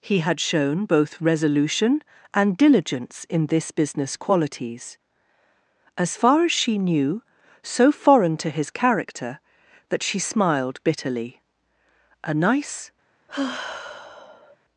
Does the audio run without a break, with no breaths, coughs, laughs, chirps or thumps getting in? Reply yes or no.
no